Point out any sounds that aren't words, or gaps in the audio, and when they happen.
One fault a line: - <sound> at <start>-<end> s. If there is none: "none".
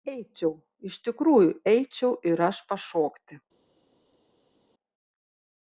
none